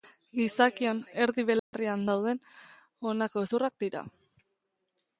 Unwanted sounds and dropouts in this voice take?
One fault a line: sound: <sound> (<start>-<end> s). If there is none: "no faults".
sound: dropout (1.6-1.7 s)